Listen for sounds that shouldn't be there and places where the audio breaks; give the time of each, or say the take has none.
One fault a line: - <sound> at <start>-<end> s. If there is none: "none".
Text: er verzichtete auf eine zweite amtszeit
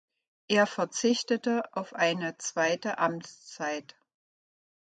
none